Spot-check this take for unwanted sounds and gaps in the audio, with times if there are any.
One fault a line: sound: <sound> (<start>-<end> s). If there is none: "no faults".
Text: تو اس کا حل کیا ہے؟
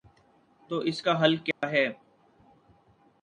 sound: dropout (1.5-1.6 s)